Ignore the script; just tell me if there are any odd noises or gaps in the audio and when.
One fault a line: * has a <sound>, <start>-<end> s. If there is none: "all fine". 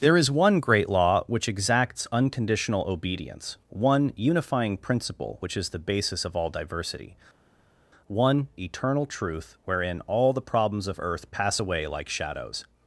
all fine